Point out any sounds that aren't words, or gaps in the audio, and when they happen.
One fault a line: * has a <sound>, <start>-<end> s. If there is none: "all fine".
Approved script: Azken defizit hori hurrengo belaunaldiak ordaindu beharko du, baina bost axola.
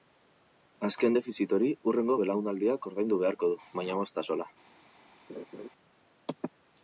* has a laugh, 5.3-5.7 s